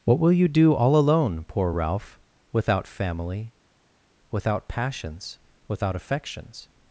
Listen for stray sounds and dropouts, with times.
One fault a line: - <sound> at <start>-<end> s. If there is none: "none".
none